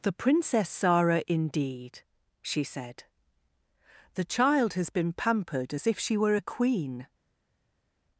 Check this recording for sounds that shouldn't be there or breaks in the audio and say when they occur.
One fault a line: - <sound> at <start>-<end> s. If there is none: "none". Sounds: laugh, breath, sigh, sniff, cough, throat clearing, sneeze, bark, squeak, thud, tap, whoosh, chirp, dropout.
none